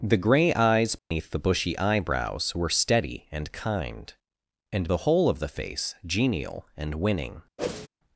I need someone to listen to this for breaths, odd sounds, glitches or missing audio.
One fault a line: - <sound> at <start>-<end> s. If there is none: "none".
- dropout at 1.0-1.1 s
- whoosh at 7.6-7.9 s